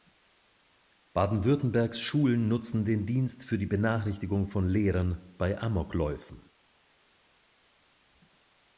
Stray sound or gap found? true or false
false